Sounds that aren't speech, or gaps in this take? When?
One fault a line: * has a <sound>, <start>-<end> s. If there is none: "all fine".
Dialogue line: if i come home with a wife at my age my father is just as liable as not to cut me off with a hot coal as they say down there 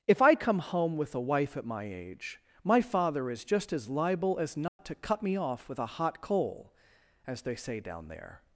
* has a dropout, 4.7-4.8 s